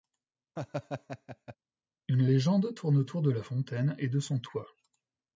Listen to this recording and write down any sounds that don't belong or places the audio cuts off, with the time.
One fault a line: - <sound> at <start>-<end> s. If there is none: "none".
- laugh at 0.6-1.6 s